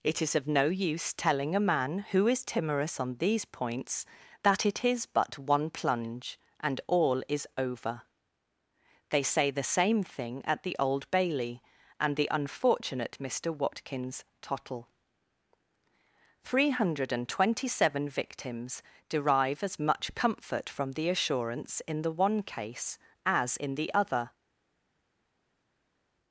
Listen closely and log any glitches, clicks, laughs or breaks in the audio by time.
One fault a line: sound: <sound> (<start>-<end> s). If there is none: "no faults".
no faults